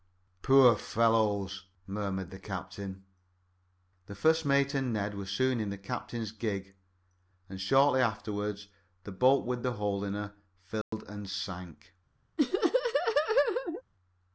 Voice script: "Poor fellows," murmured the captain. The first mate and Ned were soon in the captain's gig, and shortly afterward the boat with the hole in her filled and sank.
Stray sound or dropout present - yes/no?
yes